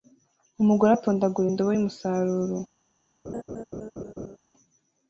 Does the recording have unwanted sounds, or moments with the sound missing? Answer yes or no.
yes